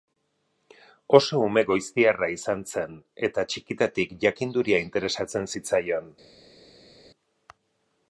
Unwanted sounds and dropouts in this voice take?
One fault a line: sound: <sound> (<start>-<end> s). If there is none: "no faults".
no faults